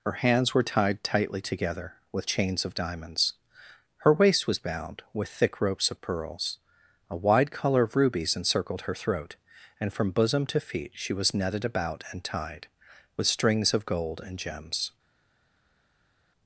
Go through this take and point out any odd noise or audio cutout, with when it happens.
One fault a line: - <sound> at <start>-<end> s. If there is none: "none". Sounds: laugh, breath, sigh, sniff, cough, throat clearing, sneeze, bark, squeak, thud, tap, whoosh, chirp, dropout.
none